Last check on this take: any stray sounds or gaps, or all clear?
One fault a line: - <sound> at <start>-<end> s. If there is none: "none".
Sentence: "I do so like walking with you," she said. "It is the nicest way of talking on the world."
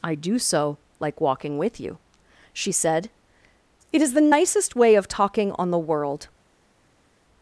none